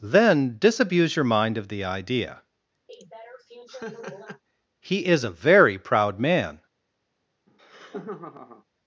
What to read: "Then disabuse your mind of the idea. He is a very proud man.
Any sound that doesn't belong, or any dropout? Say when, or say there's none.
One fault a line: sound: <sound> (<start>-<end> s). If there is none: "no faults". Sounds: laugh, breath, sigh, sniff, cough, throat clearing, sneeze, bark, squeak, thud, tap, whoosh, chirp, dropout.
sound: laugh (2.9-4.4 s)
sound: laugh (7.5-8.6 s)